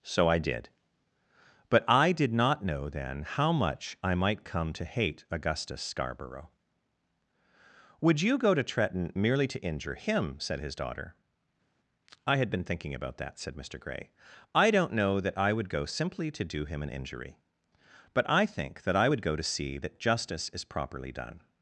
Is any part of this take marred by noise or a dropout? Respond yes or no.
no